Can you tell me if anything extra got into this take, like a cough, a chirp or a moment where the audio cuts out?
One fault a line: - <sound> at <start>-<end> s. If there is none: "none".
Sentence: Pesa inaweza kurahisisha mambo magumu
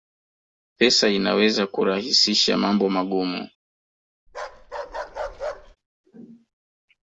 - bark at 4.3-5.8 s